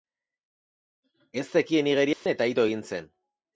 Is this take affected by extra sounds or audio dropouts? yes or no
yes